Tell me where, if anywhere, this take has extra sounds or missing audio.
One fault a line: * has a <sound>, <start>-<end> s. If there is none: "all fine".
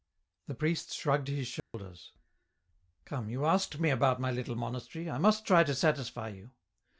* has a dropout, 1.6-1.7 s